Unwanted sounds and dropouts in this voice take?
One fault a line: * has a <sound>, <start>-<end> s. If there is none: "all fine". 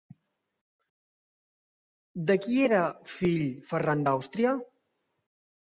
all fine